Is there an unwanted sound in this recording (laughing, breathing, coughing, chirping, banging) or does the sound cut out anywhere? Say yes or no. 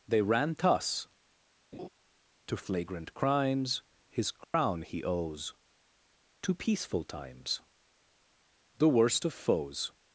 yes